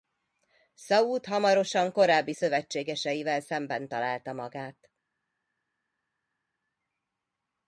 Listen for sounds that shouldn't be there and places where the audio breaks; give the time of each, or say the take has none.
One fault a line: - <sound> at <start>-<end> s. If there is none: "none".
none